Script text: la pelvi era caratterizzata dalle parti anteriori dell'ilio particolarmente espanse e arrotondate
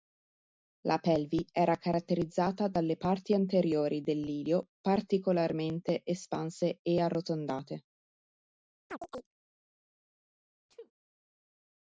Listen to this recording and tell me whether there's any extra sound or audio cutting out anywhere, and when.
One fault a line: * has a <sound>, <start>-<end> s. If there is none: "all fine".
* has a chirp, 8.9-9.3 s
* has a sneeze, 10.7-10.9 s